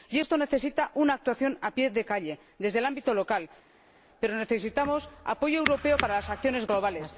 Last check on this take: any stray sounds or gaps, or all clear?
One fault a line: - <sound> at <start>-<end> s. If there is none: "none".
none